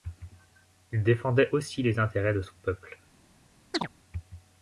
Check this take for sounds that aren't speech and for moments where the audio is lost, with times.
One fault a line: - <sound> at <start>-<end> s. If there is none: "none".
- chirp at 3.7-3.9 s